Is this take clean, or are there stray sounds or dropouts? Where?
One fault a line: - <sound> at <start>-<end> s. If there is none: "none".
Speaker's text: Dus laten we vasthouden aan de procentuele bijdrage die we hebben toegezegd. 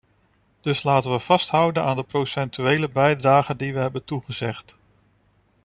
none